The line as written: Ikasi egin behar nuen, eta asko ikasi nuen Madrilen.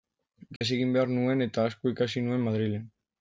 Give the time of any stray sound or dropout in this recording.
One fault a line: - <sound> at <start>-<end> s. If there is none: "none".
- dropout at 0.6-0.6 s